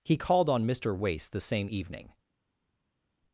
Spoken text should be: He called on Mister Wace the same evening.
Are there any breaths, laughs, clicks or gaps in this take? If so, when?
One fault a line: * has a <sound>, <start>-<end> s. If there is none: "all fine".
all fine